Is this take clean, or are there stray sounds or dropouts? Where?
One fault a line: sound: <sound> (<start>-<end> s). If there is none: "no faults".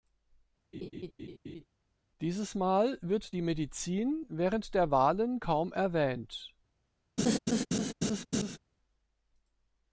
sound: laugh (0.7-1.6 s)
sound: laugh (7.2-8.6 s)